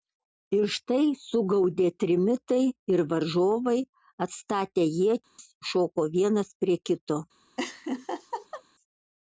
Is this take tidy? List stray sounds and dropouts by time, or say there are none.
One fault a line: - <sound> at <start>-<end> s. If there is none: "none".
- dropout at 5.2-5.4 s
- laugh at 7.6-8.6 s